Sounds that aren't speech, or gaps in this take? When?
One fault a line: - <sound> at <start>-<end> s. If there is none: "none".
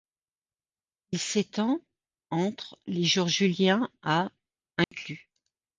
- dropout at 4.8-4.9 s